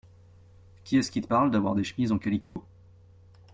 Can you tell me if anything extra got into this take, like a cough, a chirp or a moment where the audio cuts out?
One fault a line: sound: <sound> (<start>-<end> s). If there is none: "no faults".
sound: dropout (2.4-2.6 s)